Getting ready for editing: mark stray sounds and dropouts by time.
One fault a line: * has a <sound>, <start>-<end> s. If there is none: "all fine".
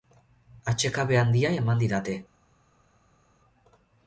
all fine